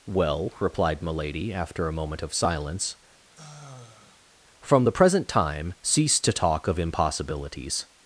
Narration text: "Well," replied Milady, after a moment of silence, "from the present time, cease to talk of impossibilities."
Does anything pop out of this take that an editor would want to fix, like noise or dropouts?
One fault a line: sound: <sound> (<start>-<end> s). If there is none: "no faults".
sound: sigh (3.3-4.3 s)